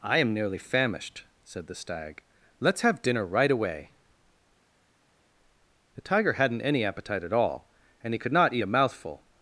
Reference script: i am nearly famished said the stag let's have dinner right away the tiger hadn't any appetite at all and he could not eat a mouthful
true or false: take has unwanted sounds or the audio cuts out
false